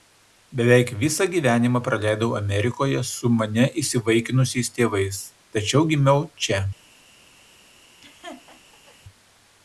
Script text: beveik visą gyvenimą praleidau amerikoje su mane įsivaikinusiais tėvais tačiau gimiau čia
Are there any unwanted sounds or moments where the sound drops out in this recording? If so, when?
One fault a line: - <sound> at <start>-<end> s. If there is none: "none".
- laugh at 8.0-9.0 s